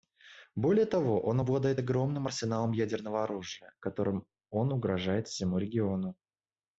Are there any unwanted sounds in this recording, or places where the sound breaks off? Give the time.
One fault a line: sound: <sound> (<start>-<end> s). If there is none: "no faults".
no faults